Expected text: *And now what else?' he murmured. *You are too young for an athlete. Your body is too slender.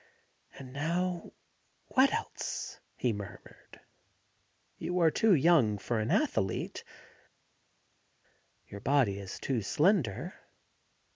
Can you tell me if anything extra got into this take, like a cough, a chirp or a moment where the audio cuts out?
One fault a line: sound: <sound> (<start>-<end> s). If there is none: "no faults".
no faults